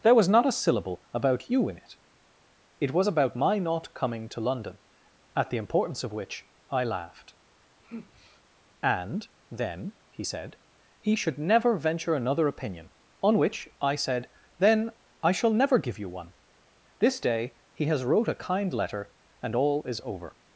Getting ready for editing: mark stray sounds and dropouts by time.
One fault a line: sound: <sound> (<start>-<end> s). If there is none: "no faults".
sound: sigh (7.8-8.4 s)